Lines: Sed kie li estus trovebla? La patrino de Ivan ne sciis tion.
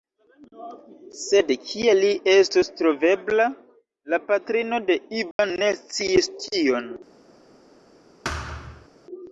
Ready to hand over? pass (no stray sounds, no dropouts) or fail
fail